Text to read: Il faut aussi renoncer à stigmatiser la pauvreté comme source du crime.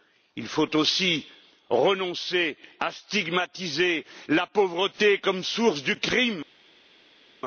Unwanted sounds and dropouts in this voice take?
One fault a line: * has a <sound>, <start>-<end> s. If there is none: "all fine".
all fine